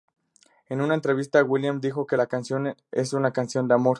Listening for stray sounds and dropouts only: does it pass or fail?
pass